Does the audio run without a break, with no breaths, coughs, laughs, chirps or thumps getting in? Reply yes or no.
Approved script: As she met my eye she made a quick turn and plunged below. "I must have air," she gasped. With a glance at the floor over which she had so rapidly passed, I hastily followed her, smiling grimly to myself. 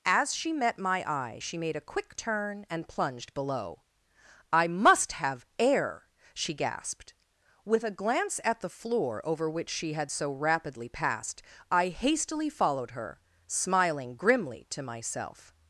yes